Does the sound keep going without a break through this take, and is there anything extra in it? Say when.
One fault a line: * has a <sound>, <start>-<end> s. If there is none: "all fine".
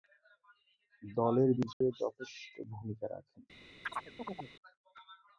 * has a dropout, 1.7-1.8 s
* has a chirp, 3.8-4.5 s